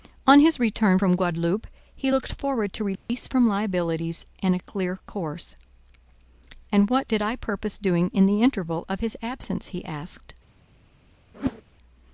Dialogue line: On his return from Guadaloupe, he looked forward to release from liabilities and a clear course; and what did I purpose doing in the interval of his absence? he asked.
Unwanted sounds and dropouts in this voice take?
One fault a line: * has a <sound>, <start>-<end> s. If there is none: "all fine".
* has a dropout, 3.0-3.1 s
* has a whoosh, 11.3-11.6 s